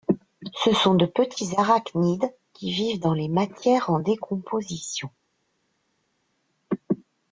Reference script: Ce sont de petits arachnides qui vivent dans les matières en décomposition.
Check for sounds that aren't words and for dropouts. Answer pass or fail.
pass